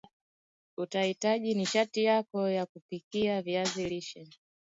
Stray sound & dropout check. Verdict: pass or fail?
pass